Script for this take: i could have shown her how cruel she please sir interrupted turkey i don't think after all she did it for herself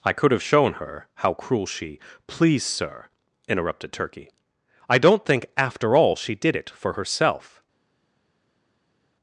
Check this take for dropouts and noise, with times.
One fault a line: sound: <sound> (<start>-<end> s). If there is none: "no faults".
no faults